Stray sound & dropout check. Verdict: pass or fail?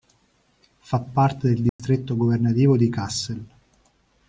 fail